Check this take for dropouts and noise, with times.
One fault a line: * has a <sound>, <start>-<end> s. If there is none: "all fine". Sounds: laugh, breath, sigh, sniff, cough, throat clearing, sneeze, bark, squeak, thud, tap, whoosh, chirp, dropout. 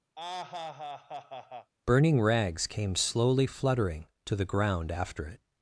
* has a laugh, 0.2-1.7 s